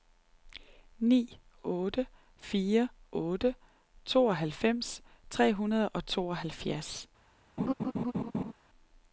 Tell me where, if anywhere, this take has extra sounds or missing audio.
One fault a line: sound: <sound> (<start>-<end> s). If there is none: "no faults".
sound: laugh (7.6-8.5 s)